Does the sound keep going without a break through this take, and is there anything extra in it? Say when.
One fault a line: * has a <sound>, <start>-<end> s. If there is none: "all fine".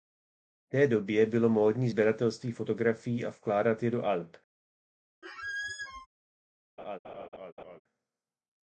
* has a squeak, 5.2-6.1 s
* has a laugh, 6.8-7.8 s